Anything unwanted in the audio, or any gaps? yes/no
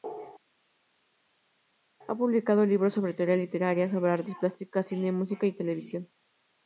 no